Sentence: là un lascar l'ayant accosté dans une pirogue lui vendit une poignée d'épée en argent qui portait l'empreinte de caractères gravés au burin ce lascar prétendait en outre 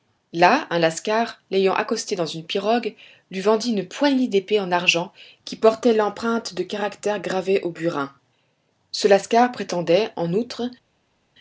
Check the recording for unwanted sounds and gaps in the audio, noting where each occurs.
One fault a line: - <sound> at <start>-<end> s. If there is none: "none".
none